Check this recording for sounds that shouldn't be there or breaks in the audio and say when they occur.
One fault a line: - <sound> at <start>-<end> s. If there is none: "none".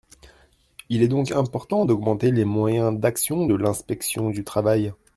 none